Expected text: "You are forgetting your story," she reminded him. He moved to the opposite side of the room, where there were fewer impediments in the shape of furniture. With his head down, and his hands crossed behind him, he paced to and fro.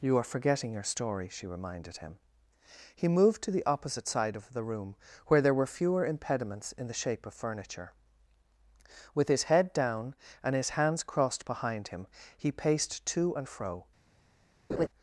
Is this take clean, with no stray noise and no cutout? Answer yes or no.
no